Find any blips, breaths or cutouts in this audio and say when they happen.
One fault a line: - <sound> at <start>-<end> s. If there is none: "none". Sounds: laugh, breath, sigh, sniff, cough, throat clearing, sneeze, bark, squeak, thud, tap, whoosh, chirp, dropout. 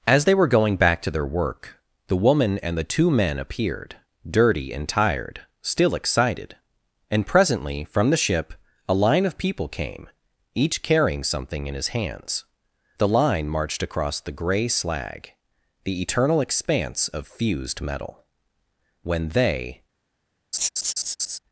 - laugh at 20.5-21.4 s